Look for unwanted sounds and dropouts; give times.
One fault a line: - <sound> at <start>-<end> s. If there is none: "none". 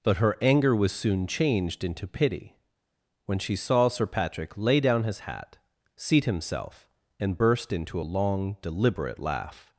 none